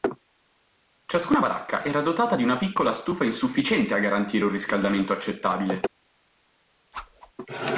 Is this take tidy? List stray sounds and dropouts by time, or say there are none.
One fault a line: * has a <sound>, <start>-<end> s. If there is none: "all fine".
* has a whoosh, 6.9-7.3 s